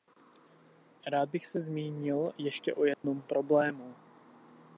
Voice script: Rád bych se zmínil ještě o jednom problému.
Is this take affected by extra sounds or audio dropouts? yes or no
yes